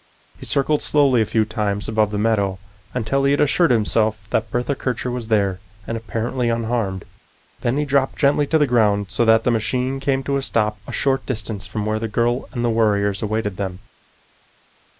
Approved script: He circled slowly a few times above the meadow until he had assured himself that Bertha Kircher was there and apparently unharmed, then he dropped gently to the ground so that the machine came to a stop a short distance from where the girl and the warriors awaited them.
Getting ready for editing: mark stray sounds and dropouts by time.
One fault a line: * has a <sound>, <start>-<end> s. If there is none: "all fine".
all fine